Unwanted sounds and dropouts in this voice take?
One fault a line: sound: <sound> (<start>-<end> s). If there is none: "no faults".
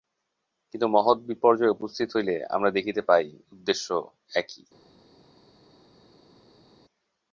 no faults